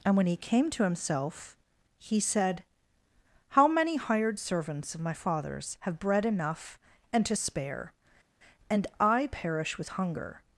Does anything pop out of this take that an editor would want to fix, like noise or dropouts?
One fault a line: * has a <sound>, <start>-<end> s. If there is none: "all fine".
all fine